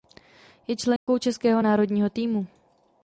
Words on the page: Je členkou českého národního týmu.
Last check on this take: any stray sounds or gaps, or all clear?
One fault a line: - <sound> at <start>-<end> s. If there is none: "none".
- dropout at 1.0-1.1 s